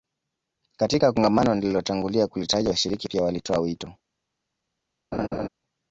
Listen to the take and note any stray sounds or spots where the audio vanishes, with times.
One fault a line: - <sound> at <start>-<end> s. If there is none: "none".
- laugh at 5.1-5.5 s